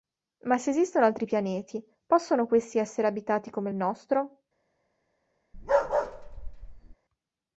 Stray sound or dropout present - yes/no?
yes